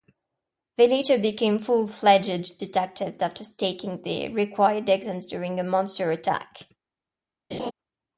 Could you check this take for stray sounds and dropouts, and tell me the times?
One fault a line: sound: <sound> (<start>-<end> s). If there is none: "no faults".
sound: laugh (7.5-7.7 s)